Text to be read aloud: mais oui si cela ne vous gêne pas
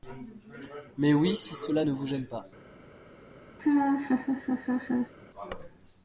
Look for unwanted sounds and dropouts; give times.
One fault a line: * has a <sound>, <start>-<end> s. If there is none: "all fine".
* has a laugh, 3.6-5.1 s